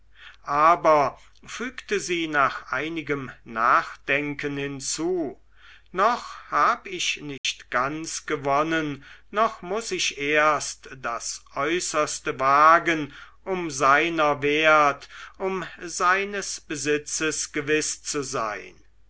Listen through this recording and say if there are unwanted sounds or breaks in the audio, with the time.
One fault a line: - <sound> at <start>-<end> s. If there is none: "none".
- dropout at 7.4-7.4 s